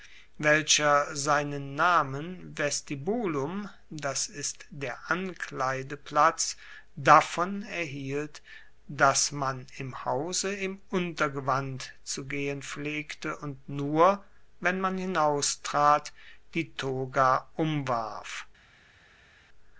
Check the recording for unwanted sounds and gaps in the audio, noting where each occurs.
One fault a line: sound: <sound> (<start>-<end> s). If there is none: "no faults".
no faults